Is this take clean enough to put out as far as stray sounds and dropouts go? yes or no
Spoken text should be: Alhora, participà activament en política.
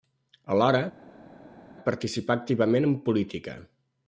yes